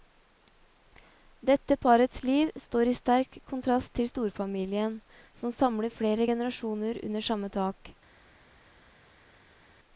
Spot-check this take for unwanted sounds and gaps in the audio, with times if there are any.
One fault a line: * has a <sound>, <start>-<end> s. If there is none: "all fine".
all fine